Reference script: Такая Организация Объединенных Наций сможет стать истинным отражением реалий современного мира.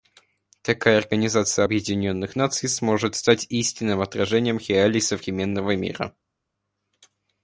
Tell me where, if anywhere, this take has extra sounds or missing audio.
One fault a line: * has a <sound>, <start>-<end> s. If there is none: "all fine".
all fine